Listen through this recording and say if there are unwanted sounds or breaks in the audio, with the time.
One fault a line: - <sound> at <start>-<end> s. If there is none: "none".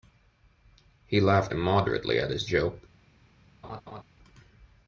- laugh at 3.6-4.0 s